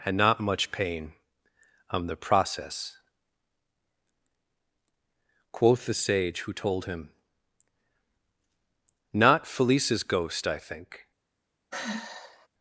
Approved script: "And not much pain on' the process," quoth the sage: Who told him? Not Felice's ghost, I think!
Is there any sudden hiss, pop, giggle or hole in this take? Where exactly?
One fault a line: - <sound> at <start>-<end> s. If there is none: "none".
- sigh at 11.7-12.5 s